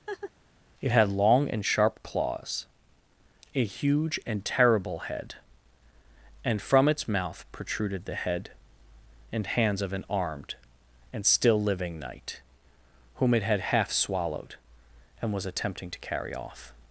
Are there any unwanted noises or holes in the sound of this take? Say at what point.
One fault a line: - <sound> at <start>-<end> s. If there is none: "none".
- laugh at 0.1-0.3 s